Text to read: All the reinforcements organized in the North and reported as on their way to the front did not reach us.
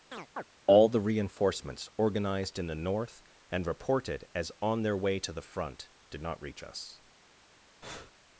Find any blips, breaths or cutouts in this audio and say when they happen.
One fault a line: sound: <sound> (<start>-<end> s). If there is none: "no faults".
sound: chirp (0.1-0.4 s)
sound: breath (7.8-8.1 s)